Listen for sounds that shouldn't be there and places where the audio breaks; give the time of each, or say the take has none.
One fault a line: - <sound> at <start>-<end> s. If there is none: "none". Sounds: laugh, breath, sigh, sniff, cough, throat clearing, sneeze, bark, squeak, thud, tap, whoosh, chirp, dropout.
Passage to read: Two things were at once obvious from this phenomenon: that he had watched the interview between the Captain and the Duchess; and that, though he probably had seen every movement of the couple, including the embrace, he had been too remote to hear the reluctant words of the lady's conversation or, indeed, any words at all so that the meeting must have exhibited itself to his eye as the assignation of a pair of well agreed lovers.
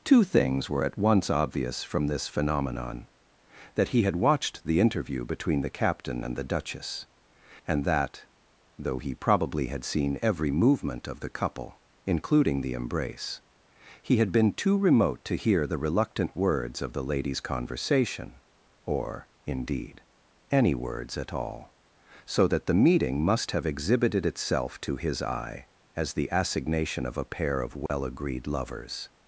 - dropout at 27.9-27.9 s